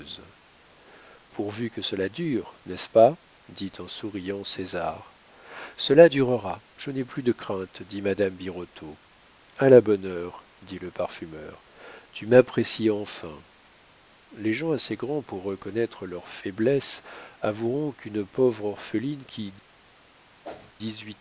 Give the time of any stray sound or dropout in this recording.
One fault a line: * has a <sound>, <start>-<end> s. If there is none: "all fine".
* has a whoosh, 20.4-20.7 s